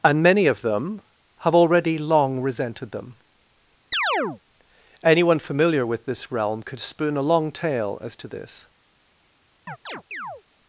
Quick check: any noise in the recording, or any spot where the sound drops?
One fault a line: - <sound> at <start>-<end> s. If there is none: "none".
- chirp at 3.9-4.4 s
- chirp at 9.7-10.4 s